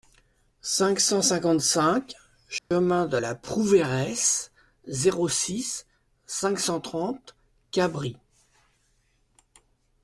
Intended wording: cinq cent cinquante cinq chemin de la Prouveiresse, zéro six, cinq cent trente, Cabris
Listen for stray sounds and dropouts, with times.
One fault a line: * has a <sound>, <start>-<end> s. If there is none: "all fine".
* has a dropout, 2.6-2.7 s